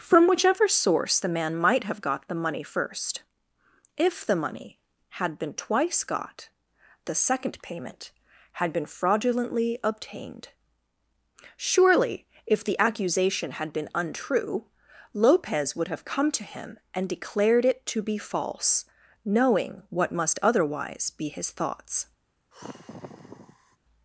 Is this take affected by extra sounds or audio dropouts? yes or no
yes